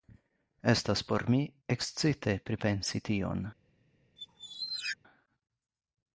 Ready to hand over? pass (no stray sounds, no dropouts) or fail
fail